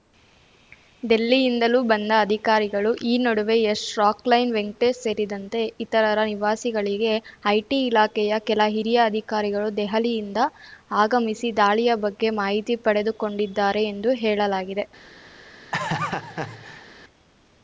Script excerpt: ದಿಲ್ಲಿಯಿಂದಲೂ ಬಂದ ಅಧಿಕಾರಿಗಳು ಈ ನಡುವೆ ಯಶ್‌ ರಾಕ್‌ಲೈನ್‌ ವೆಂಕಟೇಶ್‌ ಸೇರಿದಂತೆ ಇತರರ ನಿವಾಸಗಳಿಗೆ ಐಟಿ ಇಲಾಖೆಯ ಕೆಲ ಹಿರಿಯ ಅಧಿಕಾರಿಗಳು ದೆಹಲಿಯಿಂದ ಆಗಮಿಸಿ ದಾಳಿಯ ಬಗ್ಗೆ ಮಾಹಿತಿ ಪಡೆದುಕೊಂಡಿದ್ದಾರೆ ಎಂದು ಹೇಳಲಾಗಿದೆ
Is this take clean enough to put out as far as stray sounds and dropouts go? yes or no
no